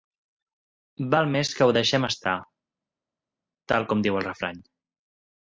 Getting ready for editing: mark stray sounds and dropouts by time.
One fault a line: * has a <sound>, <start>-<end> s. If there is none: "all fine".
all fine